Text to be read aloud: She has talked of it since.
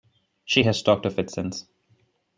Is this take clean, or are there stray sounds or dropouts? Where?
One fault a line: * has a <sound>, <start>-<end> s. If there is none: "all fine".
all fine